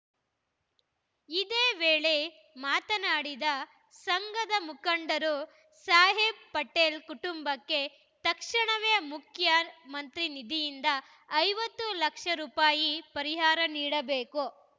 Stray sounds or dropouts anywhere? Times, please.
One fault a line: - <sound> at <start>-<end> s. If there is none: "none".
none